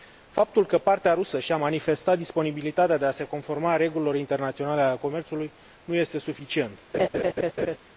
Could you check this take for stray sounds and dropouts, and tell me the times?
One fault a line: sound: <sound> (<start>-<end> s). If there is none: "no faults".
sound: laugh (6.9-7.8 s)